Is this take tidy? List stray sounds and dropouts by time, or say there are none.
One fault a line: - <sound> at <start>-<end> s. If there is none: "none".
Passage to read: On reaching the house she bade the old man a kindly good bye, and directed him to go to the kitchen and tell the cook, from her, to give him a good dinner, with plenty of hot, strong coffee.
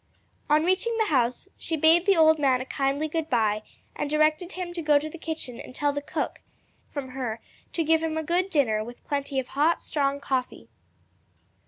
none